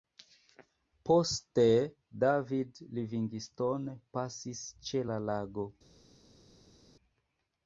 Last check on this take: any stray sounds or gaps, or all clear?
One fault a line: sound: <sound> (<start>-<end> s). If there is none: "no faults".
no faults